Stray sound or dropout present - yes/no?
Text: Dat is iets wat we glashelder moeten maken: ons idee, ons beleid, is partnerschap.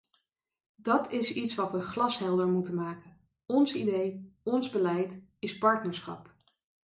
no